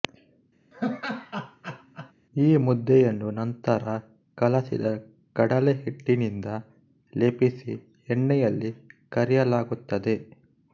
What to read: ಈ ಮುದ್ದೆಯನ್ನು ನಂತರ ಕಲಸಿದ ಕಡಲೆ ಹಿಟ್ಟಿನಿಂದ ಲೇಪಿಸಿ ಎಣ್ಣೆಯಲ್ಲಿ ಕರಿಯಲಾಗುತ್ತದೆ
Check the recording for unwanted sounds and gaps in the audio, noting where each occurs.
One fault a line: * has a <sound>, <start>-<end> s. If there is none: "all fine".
* has a laugh, 0.7-2.1 s